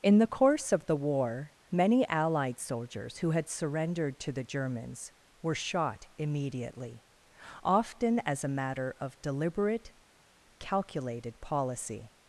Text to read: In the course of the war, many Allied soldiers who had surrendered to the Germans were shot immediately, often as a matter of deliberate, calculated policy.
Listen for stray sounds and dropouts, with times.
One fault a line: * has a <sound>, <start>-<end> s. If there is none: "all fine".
all fine